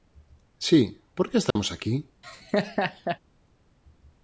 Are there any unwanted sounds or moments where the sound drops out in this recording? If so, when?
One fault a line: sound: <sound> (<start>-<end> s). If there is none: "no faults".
sound: dropout (1.5-1.6 s)
sound: laugh (2.2-3.2 s)